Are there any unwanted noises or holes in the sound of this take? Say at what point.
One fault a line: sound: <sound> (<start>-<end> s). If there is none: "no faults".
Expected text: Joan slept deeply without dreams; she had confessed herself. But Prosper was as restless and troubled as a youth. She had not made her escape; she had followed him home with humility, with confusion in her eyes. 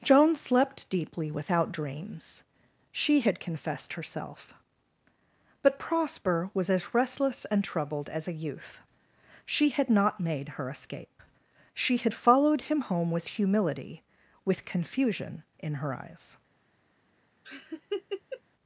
sound: laugh (17.4-18.4 s)